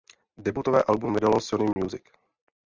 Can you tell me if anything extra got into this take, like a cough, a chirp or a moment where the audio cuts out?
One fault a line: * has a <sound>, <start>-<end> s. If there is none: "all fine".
* has a dropout, 1.7-1.8 s